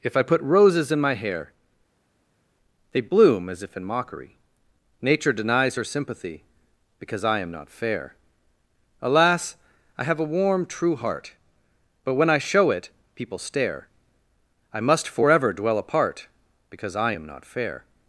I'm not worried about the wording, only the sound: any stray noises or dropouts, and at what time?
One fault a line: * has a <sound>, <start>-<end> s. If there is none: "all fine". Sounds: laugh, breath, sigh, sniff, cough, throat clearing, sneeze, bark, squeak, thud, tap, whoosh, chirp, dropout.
all fine